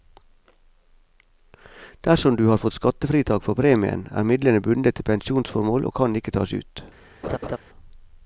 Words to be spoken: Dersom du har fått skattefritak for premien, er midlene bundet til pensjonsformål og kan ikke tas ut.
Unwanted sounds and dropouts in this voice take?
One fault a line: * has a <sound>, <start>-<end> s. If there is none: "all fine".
* has a laugh, 7.2-7.6 s